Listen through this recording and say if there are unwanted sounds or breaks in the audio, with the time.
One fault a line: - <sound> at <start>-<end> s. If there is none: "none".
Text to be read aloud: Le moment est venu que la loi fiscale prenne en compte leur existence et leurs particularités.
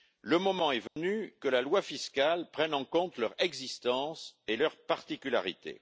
- dropout at 0.9-1.0 s